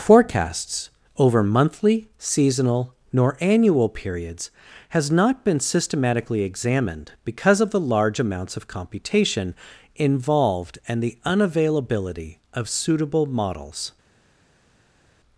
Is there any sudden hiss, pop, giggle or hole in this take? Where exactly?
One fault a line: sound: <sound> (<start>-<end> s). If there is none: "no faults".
no faults